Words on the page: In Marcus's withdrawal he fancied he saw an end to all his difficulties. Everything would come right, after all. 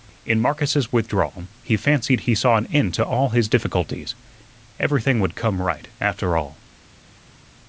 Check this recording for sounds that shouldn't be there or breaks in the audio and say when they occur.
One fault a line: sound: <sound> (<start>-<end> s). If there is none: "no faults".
no faults